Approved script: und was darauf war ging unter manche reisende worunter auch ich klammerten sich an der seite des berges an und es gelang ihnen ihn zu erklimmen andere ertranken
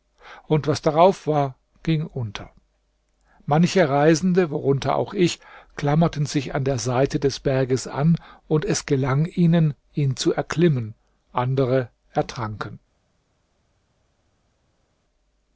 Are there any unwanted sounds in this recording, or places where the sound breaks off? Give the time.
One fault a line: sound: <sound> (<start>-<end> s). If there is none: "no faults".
no faults